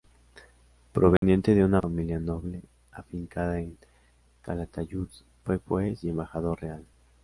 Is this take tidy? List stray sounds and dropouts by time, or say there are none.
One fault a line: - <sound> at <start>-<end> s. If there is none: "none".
- dropout at 1.2-1.2 s